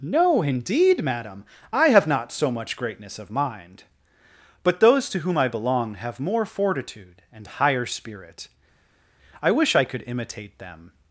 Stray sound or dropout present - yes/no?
no